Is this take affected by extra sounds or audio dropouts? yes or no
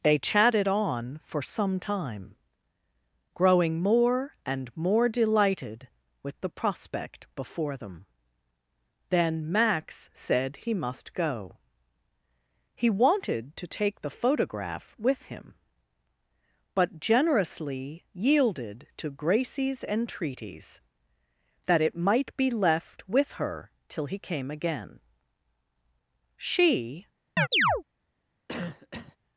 yes